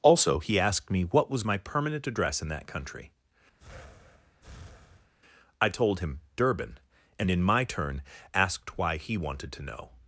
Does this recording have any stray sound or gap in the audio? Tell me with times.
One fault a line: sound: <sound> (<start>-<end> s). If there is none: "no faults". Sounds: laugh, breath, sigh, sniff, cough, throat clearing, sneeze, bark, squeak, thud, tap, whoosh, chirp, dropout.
sound: breath (3.6-5.1 s)